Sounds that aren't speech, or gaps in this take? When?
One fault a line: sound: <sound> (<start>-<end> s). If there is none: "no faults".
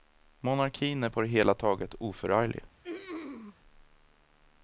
sound: throat clearing (2.8-3.6 s)